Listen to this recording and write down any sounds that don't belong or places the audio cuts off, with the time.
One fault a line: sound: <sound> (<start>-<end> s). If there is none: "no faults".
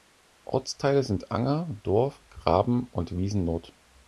no faults